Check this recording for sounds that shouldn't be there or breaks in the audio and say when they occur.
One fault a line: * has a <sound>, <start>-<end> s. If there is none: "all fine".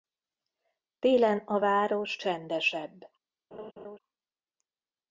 * has a laugh, 3.5-4.0 s